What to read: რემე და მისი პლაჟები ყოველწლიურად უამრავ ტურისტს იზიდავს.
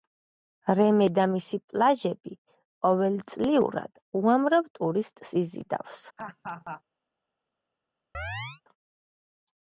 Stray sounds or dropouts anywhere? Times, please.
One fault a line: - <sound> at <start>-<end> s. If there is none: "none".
- laugh at 6.2-6.8 s
- chirp at 8.1-8.6 s